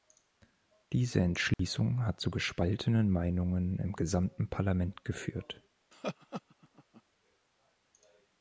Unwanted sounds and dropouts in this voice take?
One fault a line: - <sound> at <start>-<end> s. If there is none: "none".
- dropout at 1.5-1.6 s
- laugh at 5.9-7.0 s